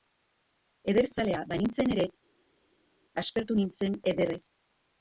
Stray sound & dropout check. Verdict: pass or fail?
pass